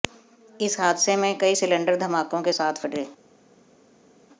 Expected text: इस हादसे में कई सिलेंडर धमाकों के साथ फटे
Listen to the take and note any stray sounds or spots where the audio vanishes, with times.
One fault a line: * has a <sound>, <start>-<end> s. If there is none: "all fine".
all fine